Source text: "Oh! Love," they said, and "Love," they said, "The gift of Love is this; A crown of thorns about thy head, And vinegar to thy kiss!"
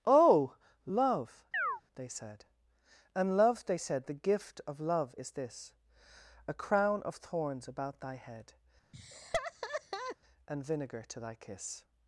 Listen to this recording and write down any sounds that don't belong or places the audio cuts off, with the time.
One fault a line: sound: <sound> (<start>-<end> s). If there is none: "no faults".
sound: chirp (1.5-1.8 s)
sound: laugh (8.9-10.2 s)